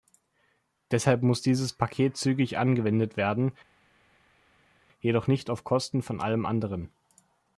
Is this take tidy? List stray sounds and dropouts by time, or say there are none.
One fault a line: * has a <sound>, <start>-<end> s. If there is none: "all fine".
all fine